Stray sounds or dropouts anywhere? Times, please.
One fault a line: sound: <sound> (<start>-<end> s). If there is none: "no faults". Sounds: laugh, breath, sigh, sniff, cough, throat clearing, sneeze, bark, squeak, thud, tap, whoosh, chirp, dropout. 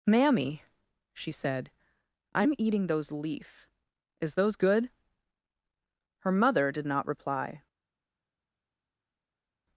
no faults